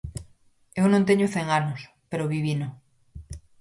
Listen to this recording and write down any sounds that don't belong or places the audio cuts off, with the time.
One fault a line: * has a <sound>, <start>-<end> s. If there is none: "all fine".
all fine